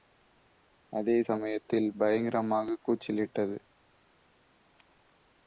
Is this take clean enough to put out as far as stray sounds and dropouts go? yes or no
yes